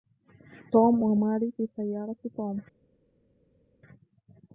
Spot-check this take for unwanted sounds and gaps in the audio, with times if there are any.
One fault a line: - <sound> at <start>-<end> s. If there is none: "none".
none